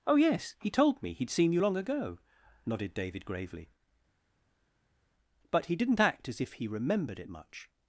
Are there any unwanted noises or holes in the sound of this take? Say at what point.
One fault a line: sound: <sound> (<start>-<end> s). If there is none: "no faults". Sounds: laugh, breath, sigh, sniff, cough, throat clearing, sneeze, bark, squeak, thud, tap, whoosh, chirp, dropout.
no faults